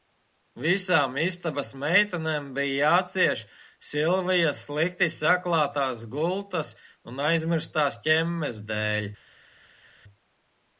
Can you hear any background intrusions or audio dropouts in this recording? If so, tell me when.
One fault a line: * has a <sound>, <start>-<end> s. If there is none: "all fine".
all fine